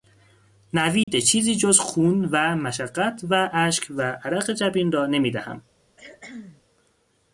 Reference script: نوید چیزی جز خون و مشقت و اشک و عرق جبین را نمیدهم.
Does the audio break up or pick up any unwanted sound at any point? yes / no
yes